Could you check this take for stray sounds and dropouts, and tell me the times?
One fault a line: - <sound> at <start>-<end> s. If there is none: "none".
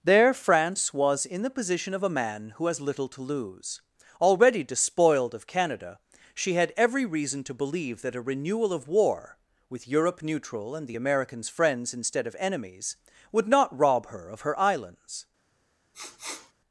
- sniff at 15.9-16.5 s